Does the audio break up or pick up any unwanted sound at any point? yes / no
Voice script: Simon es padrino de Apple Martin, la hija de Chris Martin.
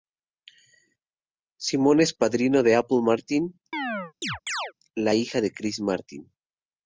yes